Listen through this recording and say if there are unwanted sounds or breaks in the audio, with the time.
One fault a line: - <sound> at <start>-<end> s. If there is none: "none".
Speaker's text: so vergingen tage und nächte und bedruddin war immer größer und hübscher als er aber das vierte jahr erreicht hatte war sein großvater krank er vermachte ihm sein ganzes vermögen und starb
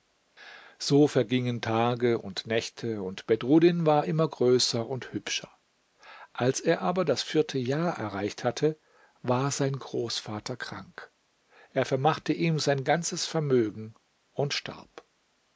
none